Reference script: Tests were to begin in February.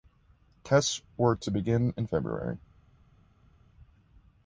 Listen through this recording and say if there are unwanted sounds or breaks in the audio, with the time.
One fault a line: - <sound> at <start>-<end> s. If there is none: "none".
none